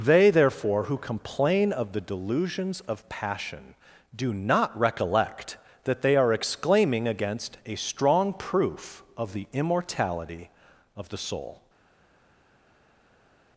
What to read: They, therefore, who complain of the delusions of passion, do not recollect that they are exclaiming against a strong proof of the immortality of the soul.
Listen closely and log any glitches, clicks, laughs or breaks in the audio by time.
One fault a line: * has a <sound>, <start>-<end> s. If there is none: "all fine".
all fine